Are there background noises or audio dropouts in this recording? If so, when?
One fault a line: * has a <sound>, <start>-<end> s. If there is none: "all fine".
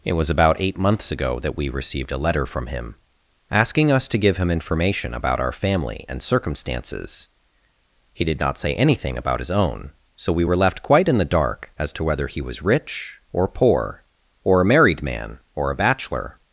all fine